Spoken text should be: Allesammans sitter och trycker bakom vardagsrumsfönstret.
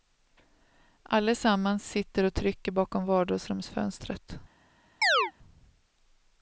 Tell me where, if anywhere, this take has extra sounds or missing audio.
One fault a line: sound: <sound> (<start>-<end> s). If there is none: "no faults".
sound: chirp (5.0-5.3 s)